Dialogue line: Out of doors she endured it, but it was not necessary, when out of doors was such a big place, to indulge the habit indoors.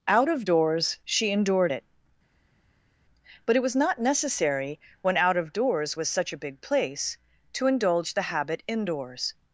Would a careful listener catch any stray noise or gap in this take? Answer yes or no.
no